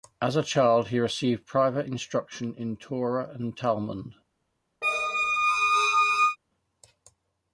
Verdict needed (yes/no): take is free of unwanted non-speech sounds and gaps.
no